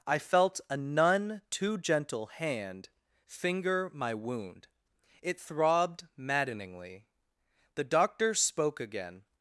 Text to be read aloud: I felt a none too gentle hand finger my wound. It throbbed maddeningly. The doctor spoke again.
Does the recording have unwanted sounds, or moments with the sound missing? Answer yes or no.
no